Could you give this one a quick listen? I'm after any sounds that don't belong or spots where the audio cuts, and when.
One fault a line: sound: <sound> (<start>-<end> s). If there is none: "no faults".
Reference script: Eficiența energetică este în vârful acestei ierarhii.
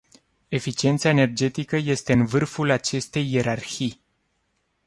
no faults